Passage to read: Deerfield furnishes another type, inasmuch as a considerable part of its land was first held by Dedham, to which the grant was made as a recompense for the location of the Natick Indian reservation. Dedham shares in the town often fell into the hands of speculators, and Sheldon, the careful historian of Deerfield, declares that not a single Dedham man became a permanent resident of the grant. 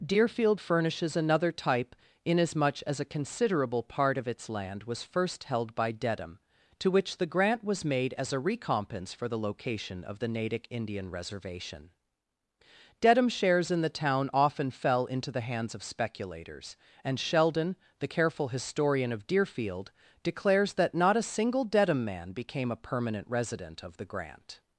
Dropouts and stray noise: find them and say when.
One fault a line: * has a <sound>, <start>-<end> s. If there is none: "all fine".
all fine